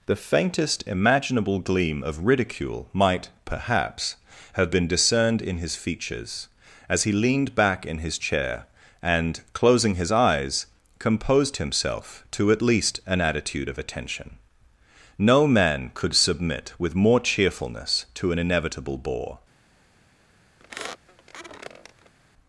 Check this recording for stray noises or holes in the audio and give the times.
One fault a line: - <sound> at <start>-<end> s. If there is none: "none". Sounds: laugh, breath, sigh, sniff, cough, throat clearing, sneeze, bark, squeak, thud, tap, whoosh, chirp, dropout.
- squeak at 20.6-22.1 s